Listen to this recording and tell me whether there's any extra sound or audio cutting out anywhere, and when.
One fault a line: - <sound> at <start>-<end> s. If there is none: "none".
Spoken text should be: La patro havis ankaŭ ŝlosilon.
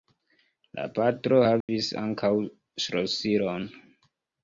- dropout at 1.6-1.7 s